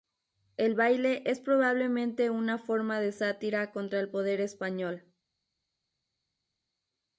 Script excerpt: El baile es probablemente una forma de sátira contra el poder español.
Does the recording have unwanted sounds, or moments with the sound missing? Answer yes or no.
no